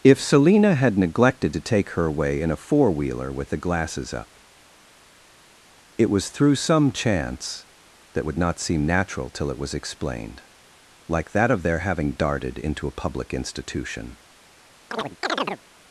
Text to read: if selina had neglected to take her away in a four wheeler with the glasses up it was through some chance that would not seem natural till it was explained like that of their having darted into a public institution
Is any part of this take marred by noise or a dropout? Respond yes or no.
yes